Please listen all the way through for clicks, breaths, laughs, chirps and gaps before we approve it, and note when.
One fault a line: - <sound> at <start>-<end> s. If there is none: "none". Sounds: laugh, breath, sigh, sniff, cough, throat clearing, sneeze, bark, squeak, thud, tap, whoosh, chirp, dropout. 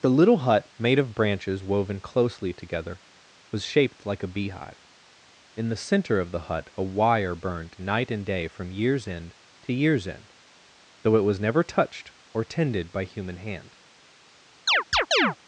- chirp at 14.7-15.4 s